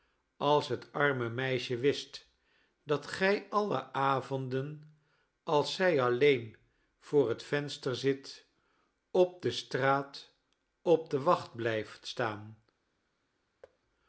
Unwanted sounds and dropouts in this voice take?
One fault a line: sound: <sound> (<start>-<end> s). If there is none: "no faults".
sound: thud (13.6-13.8 s)